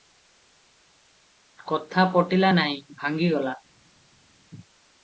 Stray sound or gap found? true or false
false